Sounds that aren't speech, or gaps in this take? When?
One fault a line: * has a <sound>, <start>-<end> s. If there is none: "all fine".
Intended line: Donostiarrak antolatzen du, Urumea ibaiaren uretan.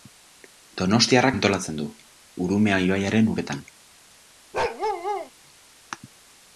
* has a bark, 4.5-5.3 s